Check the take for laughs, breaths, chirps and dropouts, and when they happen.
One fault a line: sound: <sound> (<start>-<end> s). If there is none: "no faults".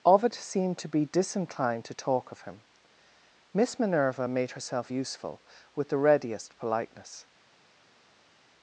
no faults